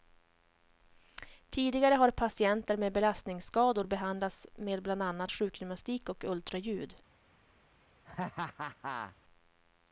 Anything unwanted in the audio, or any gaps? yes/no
yes